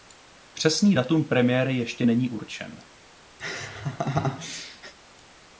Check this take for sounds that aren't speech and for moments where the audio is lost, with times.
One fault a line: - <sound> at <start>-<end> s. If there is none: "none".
- laugh at 3.4-4.9 s